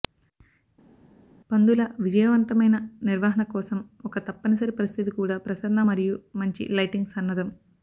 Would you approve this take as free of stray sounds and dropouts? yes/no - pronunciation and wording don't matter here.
yes